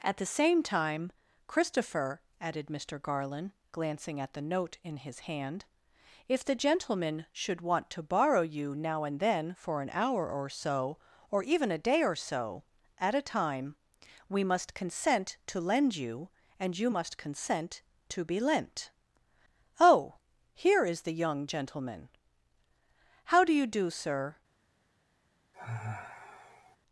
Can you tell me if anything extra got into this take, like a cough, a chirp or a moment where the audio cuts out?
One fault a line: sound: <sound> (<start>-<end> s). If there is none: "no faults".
sound: sigh (25.5-26.8 s)